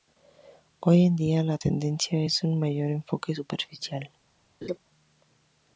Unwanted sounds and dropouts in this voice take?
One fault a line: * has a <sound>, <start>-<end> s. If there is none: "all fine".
* has a laugh, 4.6-4.8 s